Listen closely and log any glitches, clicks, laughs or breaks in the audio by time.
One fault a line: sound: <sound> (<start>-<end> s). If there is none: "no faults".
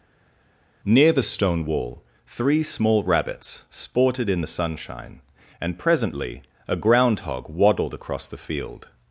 no faults